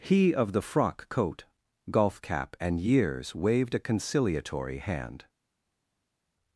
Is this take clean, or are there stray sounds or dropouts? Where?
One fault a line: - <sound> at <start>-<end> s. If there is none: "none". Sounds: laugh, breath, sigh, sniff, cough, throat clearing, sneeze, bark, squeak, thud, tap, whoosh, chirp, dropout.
none